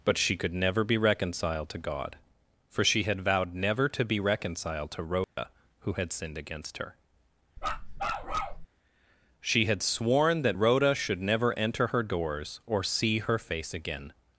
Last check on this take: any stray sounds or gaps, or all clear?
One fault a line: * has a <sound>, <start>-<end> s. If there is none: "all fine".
* has a dropout, 5.2-5.4 s
* has a bark, 7.6-8.7 s